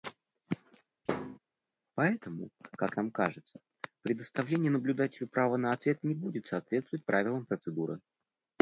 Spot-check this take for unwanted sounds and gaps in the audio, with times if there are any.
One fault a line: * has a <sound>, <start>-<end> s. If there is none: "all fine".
* has a thud, 1.1-1.4 s